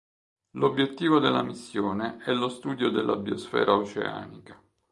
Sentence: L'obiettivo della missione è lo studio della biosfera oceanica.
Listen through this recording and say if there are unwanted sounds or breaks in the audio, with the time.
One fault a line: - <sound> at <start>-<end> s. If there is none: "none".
none